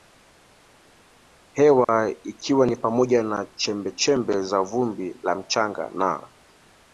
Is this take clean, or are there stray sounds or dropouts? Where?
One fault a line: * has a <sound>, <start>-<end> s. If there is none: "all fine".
* has a dropout, 1.8-1.9 s